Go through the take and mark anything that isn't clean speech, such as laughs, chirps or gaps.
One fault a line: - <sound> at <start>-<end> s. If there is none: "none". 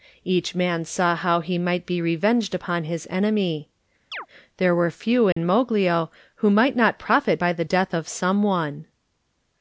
- chirp at 4.1-4.3 s
- dropout at 5.3-5.4 s